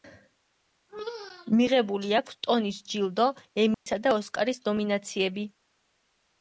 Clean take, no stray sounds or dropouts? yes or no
no